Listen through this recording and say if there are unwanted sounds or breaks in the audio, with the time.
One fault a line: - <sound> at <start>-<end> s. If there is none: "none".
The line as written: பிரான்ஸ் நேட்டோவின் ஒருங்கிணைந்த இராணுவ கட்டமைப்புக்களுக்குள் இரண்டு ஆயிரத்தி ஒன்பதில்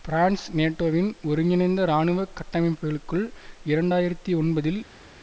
none